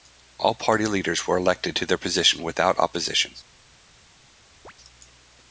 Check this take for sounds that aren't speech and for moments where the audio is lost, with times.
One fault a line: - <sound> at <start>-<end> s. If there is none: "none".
- chirp at 4.6-4.7 s